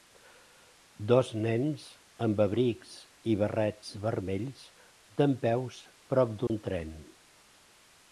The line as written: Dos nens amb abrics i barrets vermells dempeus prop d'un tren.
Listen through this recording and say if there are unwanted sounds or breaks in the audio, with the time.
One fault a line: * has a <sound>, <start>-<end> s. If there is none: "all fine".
* has a dropout, 6.5-6.5 s